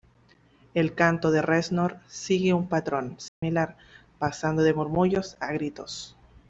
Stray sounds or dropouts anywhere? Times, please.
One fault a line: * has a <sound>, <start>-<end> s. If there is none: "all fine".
* has a dropout, 3.3-3.4 s